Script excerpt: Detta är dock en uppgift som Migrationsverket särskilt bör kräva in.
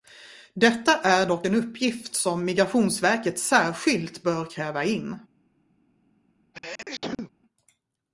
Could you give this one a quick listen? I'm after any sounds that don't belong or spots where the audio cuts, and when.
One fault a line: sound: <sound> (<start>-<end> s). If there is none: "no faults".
sound: sneeze (6.5-7.3 s)